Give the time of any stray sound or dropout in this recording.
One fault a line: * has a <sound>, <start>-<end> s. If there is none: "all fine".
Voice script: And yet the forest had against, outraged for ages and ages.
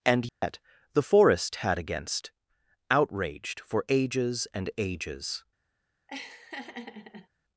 * has a dropout, 0.3-0.4 s
* has a laugh, 6.1-7.3 s